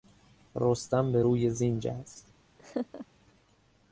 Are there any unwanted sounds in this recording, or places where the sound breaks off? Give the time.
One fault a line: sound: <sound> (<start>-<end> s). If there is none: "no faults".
sound: laugh (2.6-3.1 s)